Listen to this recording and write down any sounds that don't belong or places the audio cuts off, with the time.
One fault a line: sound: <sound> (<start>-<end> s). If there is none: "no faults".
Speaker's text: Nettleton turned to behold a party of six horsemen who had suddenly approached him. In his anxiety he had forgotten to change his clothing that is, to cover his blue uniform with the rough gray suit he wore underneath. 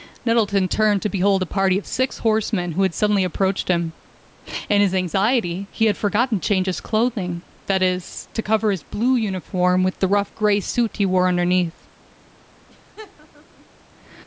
sound: laugh (12.7-13.7 s)